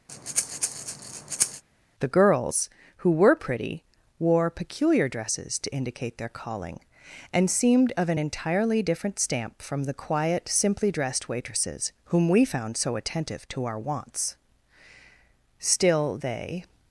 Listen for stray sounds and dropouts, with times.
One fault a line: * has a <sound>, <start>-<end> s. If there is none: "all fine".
* has a breath, 0.1-1.6 s